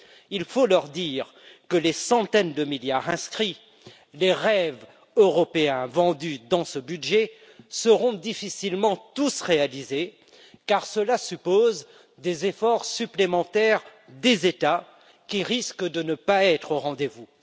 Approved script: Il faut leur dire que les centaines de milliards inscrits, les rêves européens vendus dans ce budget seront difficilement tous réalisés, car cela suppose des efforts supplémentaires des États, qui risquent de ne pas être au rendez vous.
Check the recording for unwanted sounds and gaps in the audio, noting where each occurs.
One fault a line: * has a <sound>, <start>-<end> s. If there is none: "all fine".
all fine